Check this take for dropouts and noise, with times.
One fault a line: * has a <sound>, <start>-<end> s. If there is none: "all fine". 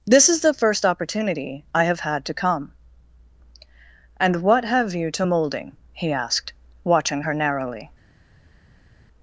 all fine